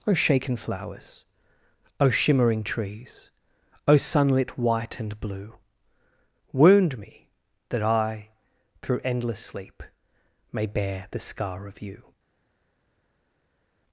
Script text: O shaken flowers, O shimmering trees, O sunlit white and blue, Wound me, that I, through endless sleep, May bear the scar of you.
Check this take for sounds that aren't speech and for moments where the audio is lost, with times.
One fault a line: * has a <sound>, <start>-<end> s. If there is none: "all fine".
all fine